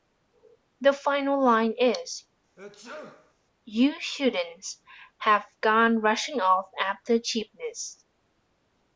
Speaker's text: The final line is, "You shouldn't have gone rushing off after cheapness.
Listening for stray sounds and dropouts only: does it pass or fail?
fail